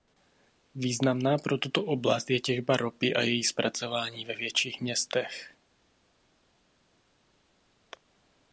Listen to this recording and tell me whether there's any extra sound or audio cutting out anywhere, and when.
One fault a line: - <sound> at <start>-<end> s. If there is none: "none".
none